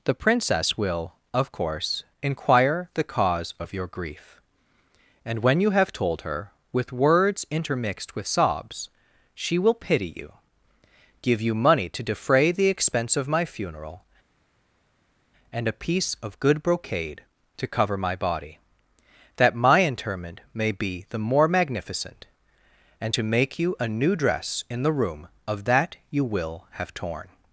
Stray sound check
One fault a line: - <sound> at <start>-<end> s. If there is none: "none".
none